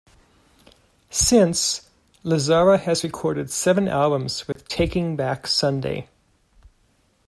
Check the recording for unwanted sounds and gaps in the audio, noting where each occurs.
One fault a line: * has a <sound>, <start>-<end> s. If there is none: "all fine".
* has a dropout, 4.5-4.6 s